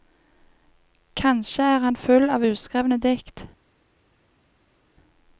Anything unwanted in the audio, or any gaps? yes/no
no